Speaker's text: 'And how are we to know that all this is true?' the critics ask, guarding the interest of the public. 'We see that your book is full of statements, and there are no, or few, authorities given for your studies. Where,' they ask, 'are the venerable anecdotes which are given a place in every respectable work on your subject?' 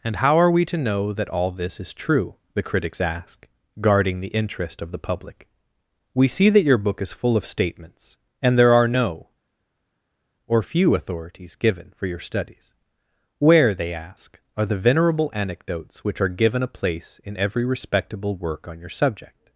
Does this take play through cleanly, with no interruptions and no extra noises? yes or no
yes